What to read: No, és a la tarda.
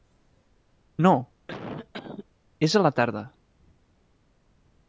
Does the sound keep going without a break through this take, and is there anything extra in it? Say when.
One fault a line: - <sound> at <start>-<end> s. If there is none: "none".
- cough at 1.5-2.3 s